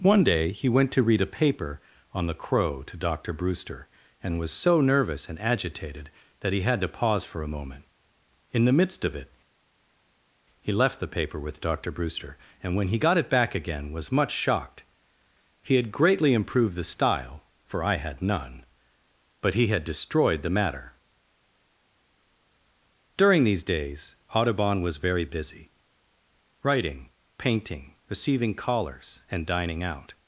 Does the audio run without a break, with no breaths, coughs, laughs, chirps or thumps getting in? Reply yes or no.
yes